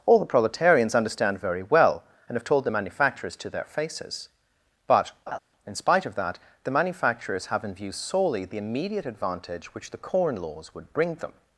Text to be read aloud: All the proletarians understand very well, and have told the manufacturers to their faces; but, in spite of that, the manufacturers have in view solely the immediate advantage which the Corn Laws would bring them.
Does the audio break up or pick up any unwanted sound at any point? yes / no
yes